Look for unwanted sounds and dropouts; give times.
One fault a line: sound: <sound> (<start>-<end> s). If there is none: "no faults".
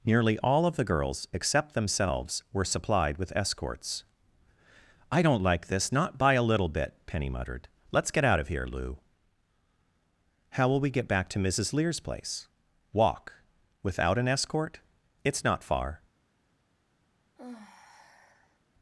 sound: sigh (17.4-18.6 s)